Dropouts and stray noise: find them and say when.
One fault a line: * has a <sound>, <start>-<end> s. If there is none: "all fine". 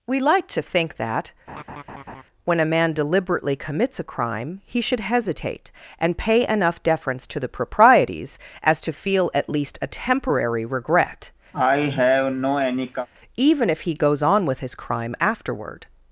* has a laugh, 1.5-2.2 s
* has a cough, 11.5-13.1 s